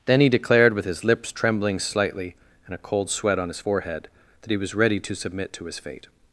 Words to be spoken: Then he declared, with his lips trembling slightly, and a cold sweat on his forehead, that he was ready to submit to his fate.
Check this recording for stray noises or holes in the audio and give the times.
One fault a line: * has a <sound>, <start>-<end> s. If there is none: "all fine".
all fine